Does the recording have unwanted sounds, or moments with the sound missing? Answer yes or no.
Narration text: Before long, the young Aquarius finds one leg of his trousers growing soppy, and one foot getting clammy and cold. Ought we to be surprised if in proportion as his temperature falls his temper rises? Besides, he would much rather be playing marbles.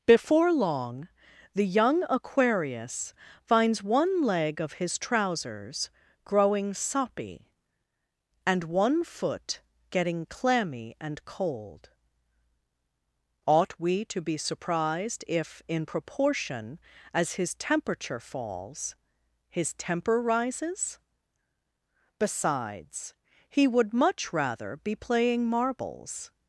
no